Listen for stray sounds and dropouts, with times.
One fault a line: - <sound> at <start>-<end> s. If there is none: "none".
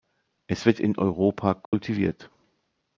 - dropout at 1.7-1.7 s